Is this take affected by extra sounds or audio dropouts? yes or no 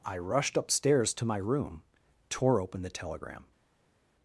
no